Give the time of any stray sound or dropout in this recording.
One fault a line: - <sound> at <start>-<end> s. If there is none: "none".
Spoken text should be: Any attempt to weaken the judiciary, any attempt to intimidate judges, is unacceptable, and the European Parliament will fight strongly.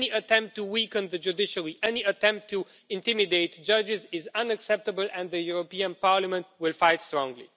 none